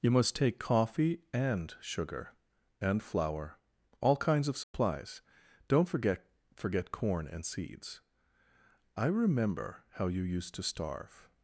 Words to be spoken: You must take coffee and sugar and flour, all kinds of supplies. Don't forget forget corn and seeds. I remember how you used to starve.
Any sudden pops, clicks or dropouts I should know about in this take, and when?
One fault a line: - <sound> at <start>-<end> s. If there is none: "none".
- dropout at 4.6-4.7 s